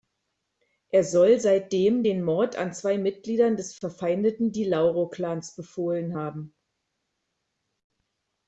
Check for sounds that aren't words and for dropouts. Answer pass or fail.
pass